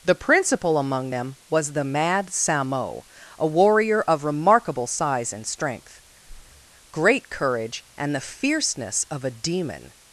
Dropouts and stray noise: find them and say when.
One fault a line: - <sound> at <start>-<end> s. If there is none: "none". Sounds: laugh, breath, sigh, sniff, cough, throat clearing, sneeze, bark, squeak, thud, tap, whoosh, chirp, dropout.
- breath at 6.2-6.7 s